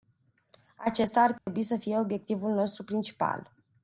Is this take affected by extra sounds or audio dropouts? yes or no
yes